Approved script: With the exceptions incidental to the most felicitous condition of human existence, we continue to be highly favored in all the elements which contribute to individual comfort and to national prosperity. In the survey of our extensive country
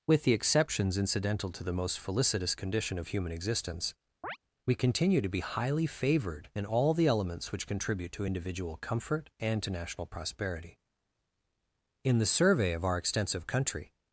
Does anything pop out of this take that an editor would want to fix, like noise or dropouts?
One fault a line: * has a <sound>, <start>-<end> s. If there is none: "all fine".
* has a chirp, 4.2-4.4 s